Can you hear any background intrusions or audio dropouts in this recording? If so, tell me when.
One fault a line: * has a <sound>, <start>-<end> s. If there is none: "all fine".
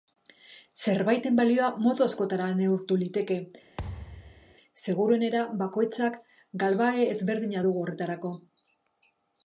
* has a thud, 3.8-4.6 s